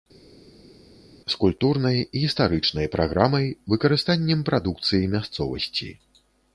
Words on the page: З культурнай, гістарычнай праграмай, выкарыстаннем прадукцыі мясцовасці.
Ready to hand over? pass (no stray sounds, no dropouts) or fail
pass